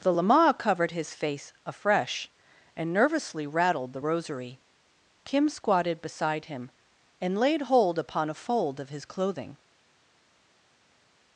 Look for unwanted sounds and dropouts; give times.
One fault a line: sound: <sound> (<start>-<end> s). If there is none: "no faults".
no faults